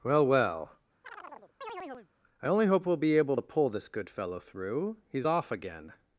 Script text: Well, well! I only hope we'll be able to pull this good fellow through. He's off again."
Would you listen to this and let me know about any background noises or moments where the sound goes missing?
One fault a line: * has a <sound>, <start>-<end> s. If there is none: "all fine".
* has a chirp, 1.0-2.1 s